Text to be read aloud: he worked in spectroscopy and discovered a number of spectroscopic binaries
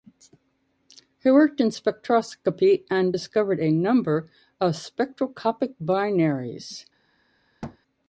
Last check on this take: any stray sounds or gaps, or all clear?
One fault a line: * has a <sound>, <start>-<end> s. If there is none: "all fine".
* has a thud, 7.6-7.8 s